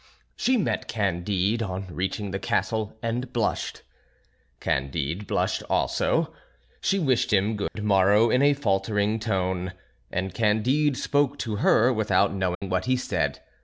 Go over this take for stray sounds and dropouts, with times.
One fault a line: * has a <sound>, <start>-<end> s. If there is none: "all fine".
* has a dropout, 7.7-7.8 s
* has a dropout, 12.5-12.6 s